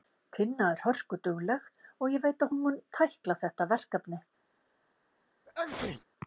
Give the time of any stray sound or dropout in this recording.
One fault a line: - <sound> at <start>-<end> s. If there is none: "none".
- sneeze at 5.5-6.0 s